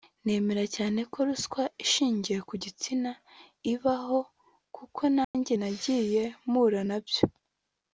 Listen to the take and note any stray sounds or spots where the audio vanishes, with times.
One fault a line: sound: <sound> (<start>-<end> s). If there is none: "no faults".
sound: dropout (5.2-5.3 s)